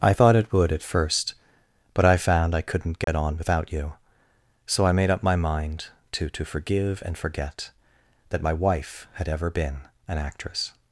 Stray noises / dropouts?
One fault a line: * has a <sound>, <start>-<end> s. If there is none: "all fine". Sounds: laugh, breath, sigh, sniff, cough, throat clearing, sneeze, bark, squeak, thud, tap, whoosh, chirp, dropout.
* has a dropout, 3.0-3.1 s